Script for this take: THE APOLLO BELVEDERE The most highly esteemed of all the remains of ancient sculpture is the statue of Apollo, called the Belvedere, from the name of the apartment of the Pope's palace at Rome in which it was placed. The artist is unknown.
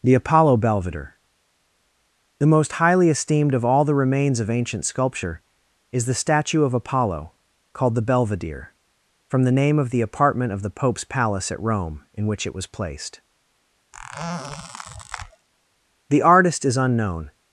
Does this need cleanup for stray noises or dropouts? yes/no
yes